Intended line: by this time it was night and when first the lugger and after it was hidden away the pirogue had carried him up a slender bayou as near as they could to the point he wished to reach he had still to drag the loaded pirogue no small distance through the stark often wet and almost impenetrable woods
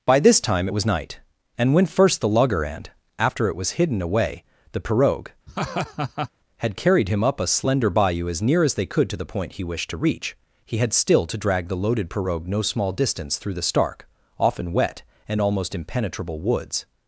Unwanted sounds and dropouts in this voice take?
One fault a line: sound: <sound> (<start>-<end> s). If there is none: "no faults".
sound: laugh (5.5-6.3 s)